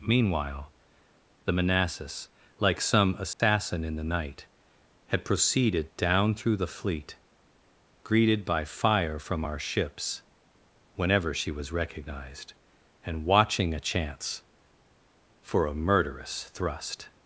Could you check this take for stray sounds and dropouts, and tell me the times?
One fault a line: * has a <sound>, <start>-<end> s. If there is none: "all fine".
* has a dropout, 3.3-3.4 s